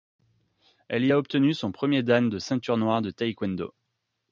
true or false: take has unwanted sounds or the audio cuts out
false